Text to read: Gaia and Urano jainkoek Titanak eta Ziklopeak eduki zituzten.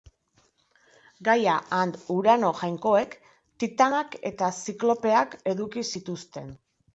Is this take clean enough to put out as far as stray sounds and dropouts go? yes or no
yes